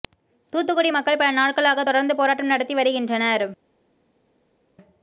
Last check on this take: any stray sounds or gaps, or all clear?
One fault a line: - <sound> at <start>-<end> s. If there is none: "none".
none